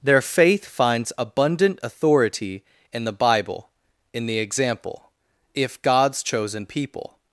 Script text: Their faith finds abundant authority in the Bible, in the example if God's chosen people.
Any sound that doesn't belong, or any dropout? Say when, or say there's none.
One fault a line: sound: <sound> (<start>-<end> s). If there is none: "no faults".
no faults